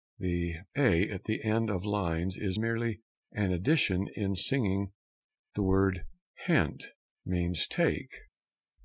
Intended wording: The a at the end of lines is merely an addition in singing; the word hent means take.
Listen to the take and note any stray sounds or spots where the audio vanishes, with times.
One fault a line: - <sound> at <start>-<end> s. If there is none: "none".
none